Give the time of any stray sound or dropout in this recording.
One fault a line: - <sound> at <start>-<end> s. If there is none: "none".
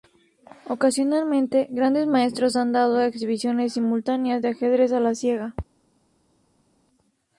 none